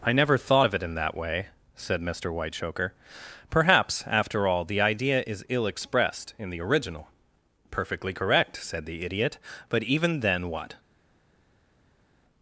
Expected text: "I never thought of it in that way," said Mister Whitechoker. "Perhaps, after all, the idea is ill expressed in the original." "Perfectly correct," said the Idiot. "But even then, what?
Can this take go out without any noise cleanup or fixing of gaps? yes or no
yes